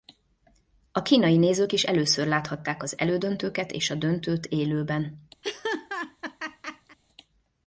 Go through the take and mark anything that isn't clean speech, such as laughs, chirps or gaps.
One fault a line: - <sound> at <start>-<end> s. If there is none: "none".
- laugh at 5.4-7.0 s